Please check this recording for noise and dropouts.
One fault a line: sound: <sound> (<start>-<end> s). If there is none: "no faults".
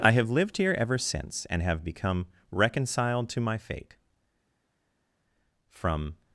no faults